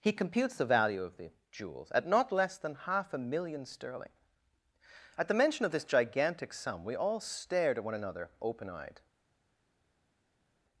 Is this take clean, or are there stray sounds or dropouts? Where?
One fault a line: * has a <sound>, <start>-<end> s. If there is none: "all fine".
all fine